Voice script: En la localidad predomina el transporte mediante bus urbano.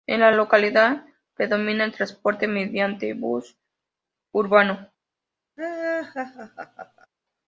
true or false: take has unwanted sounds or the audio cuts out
true